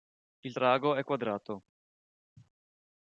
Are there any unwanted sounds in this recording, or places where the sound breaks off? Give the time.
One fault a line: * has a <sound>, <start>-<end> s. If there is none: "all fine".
all fine